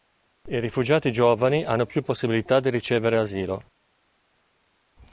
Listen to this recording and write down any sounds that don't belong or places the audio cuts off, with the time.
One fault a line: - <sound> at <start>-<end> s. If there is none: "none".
none